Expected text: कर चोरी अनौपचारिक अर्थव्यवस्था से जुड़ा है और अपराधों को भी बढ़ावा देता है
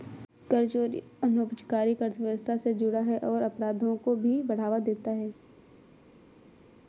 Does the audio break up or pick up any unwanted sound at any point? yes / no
no